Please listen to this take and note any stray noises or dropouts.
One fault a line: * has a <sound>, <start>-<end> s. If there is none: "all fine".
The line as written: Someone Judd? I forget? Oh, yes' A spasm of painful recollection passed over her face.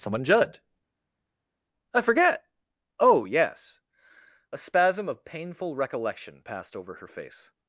all fine